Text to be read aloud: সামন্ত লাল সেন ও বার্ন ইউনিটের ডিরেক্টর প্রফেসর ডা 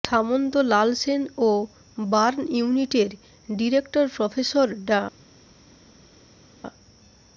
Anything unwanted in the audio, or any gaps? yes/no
no